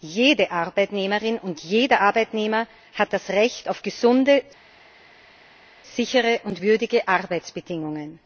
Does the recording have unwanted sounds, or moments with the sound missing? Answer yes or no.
no